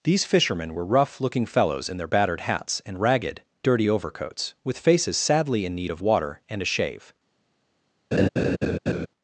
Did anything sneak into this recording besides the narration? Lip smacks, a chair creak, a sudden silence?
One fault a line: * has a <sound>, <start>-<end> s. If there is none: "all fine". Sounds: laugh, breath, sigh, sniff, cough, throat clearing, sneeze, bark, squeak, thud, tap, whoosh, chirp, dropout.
* has a laugh, 8.1-9.1 s